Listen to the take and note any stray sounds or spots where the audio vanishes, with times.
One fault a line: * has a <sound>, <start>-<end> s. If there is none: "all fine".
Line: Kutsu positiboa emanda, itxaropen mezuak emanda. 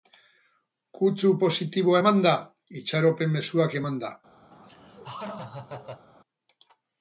* has a laugh, 4.5-6.1 s